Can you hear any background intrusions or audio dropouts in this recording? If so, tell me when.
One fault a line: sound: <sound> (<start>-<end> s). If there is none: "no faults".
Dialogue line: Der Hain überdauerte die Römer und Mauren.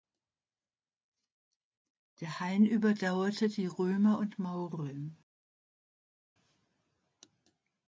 no faults